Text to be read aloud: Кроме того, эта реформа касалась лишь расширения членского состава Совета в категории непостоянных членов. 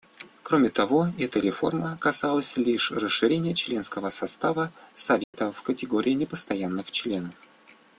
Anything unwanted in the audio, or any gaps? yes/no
yes